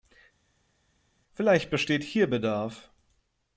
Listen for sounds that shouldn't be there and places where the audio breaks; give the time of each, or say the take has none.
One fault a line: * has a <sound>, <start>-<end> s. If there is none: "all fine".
all fine